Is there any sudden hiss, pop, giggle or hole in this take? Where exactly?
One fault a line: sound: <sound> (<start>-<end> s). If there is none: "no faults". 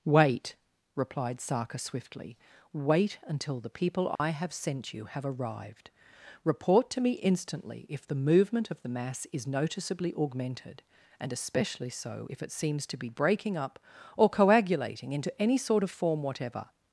sound: dropout (4.1-4.2 s)